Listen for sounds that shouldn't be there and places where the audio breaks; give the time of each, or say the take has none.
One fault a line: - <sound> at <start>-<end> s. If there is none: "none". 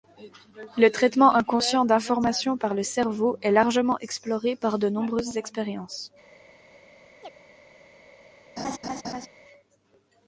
- chirp at 7.2-7.3 s
- laugh at 8.6-9.3 s